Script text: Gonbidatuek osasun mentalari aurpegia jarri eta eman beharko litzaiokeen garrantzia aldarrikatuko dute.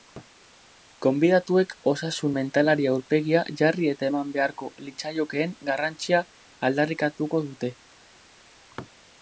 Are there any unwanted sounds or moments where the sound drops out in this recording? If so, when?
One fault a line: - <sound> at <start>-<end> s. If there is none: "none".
none